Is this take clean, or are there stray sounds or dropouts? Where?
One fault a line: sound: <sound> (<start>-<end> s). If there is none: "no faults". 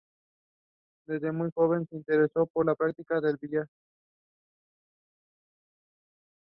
no faults